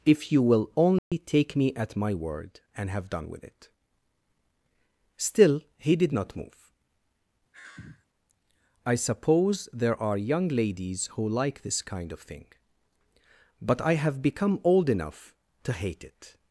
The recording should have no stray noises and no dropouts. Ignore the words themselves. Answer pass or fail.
fail